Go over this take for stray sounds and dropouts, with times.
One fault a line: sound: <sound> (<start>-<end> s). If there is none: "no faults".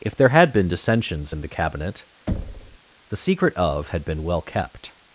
sound: thud (2.3-2.8 s)